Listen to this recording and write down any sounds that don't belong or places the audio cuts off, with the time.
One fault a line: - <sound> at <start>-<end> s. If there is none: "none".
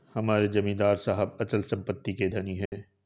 - dropout at 2.7-2.7 s